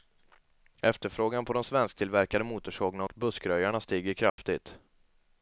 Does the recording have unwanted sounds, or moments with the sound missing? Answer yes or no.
yes